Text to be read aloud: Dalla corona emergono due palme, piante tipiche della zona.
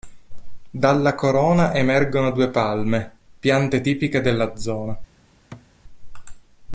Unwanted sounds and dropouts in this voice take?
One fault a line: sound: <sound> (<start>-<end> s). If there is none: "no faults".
sound: thud (5.5-5.7 s)